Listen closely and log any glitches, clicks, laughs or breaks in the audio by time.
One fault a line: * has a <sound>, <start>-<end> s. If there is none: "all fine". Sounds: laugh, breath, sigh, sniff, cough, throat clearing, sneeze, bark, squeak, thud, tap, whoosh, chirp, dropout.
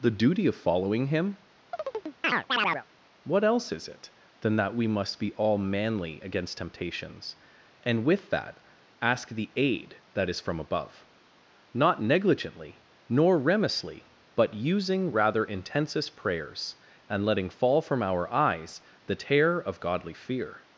* has a chirp, 1.7-2.8 s